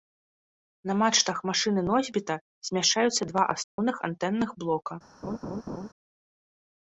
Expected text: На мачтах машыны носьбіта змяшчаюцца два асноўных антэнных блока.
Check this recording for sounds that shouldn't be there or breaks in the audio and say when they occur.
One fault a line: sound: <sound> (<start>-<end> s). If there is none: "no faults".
sound: dropout (3.6-3.8 s)
sound: laugh (5.2-5.9 s)